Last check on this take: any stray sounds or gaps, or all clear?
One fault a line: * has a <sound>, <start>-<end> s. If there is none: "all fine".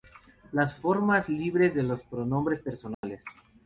* has a dropout, 2.9-3.0 s